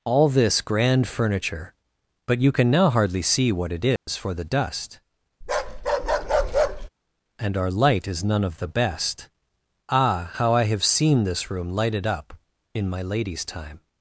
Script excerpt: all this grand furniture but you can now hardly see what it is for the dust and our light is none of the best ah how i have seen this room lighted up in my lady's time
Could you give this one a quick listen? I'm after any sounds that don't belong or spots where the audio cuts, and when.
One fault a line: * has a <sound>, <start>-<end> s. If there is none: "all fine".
* has a dropout, 4.0-4.1 s
* has a bark, 5.4-6.9 s